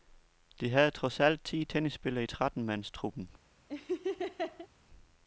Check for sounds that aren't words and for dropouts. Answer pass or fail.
fail